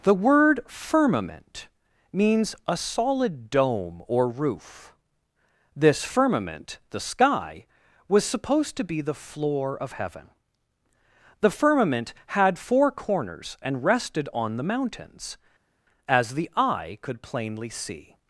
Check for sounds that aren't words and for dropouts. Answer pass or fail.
pass